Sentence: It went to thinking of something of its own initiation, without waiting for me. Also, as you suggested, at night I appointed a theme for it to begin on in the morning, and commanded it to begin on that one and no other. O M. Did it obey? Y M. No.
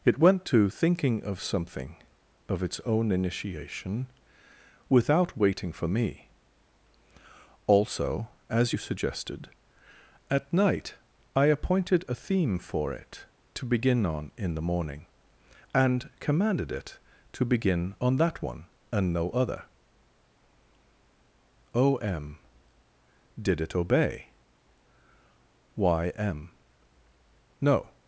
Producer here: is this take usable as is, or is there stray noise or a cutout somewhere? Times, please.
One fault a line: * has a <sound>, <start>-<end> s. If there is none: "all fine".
all fine